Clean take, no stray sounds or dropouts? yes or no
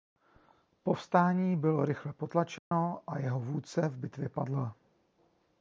no